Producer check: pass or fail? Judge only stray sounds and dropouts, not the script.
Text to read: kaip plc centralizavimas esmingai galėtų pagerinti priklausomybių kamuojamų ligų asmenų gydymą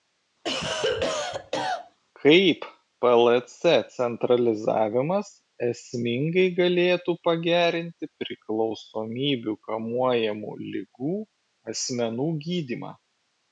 fail